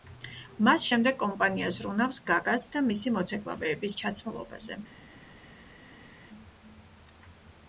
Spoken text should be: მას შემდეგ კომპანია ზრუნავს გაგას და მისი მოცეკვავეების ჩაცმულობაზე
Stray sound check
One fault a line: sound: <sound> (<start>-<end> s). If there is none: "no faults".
no faults